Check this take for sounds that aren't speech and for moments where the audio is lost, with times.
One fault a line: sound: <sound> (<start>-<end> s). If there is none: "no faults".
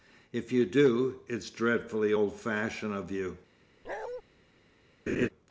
sound: bark (3.8-4.2 s)
sound: laugh (5.1-5.3 s)